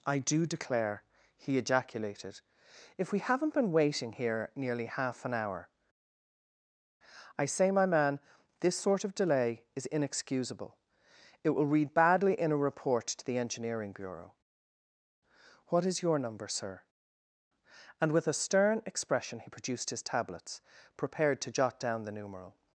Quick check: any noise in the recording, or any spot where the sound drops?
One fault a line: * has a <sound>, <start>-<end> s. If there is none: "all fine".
all fine